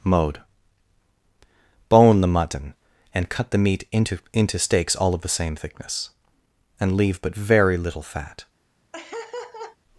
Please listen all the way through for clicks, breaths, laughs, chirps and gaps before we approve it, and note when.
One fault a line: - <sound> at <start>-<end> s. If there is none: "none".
- laugh at 8.9-9.8 s